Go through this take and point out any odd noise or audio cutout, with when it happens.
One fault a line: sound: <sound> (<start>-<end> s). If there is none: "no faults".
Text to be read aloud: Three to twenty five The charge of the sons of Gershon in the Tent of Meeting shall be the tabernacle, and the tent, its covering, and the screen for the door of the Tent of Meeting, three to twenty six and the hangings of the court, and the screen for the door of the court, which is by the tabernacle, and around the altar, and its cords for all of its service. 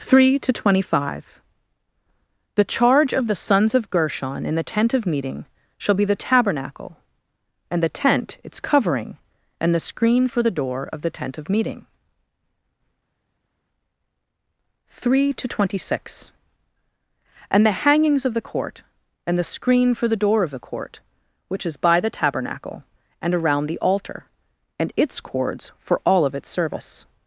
no faults